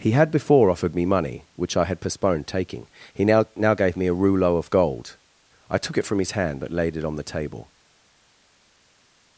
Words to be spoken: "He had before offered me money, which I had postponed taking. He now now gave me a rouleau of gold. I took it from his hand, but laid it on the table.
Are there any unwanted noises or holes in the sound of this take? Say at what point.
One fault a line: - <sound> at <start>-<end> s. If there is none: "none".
none